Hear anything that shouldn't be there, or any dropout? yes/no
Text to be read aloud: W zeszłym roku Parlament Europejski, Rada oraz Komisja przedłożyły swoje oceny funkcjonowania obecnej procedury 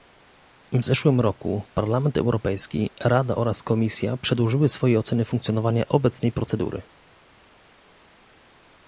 no